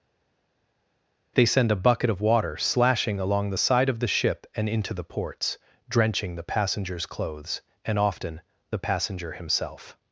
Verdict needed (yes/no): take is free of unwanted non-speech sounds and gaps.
yes